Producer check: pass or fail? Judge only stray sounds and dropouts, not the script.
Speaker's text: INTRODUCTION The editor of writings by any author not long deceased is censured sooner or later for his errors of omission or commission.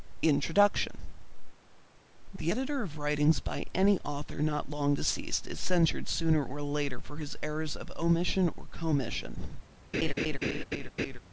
fail